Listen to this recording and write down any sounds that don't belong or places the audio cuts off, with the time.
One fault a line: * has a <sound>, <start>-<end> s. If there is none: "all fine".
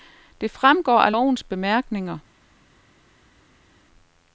all fine